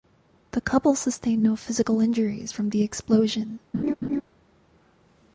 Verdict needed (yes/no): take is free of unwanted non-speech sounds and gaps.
no